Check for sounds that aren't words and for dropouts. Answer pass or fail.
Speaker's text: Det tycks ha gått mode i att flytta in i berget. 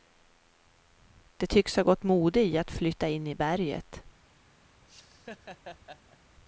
fail